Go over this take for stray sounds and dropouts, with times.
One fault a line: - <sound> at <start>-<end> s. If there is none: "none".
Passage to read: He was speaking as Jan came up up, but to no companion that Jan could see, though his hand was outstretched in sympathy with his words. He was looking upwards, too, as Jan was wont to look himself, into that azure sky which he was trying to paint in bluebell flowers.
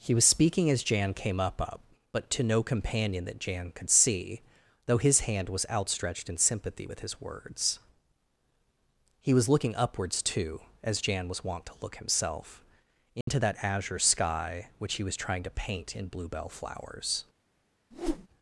- dropout at 13.2-13.3 s
- whoosh at 17.9-18.3 s